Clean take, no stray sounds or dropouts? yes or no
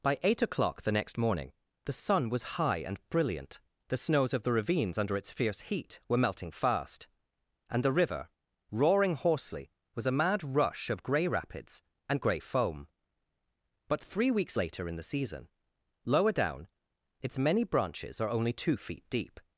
yes